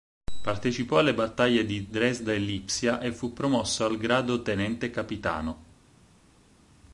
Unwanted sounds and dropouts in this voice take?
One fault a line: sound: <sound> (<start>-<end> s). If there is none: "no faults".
no faults